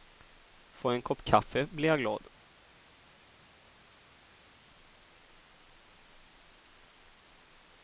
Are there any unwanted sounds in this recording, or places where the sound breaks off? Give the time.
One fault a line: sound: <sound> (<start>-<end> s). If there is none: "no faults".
no faults